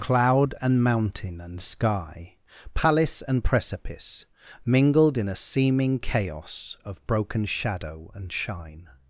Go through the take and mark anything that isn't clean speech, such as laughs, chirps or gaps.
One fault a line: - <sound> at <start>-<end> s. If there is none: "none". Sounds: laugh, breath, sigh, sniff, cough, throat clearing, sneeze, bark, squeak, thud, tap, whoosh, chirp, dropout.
none